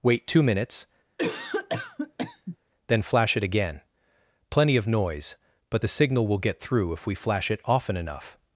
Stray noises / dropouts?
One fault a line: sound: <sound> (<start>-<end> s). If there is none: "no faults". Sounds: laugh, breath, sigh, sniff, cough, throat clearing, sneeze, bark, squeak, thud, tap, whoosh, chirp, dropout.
sound: cough (1.2-2.6 s)